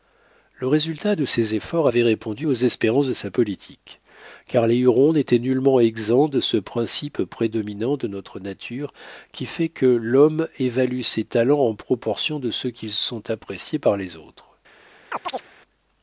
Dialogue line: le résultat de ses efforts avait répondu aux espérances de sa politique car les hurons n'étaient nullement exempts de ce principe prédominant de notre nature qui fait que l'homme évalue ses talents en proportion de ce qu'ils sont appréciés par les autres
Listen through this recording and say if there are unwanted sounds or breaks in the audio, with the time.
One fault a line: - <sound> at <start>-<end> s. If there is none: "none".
- chirp at 15.1-15.5 s